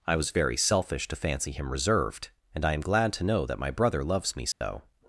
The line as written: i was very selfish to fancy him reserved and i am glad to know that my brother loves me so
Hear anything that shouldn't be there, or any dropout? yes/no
yes